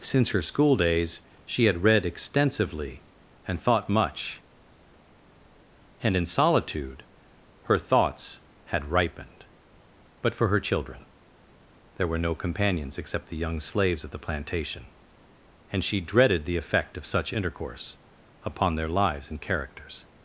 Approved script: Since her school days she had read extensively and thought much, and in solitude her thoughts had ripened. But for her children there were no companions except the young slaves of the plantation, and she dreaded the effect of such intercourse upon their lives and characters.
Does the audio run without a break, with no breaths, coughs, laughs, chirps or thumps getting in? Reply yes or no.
yes